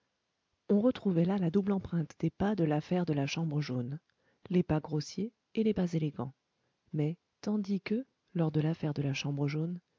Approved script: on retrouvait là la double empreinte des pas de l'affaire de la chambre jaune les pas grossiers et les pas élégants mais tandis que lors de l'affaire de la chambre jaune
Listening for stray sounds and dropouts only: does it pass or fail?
pass